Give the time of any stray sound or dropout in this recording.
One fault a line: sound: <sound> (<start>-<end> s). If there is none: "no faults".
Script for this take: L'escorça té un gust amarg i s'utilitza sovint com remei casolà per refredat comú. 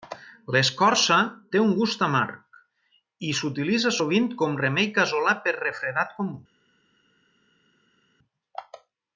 no faults